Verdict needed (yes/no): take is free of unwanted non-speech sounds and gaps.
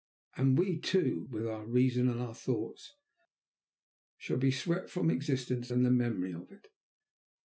yes